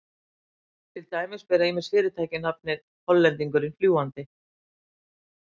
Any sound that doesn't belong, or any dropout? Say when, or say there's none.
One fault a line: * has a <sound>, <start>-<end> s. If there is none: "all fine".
all fine